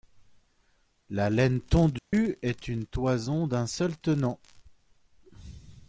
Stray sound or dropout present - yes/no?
yes